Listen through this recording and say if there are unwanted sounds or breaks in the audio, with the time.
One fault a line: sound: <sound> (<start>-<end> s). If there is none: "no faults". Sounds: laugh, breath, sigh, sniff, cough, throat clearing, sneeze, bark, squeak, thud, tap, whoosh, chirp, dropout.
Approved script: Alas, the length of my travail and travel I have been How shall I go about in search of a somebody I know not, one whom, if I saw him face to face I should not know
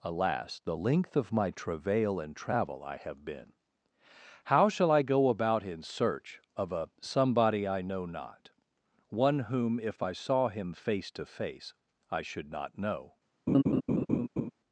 sound: laugh (13.5-14.5 s)